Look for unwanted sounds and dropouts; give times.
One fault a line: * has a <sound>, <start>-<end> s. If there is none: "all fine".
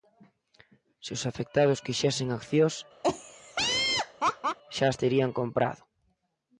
* has a laugh, 3.0-4.6 s